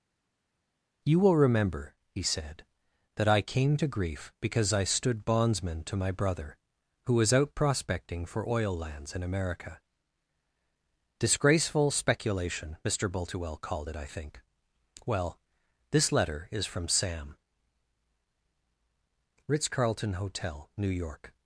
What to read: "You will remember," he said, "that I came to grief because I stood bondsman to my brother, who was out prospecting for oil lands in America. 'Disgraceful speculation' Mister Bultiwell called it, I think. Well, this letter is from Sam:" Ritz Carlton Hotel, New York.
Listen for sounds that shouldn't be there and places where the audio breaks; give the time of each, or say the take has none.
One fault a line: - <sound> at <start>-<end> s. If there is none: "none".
none